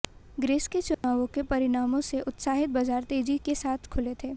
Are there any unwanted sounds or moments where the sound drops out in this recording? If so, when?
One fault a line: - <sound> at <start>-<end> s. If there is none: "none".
- dropout at 0.9-1.0 s